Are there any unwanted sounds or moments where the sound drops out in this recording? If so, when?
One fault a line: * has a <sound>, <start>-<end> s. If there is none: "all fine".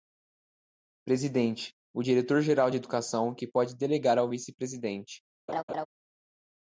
* has a laugh, 5.5-5.9 s